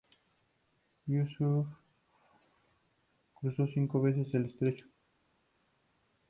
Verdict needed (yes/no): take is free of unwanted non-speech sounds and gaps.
yes